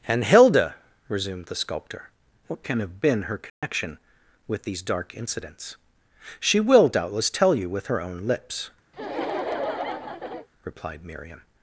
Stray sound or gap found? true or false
true